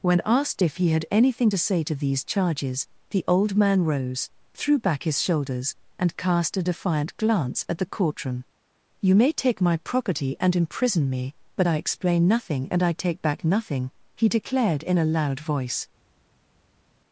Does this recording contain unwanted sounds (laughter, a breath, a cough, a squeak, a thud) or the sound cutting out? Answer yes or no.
no